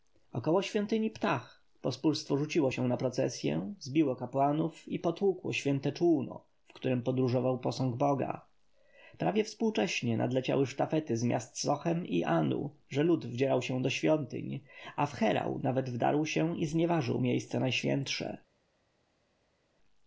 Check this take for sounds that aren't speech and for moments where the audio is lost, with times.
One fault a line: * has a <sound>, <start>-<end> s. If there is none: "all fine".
all fine